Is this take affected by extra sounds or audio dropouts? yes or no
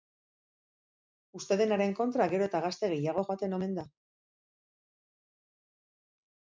no